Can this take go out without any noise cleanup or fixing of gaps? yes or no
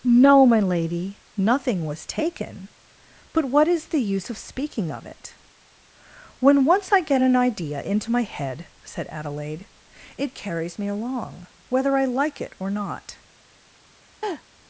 no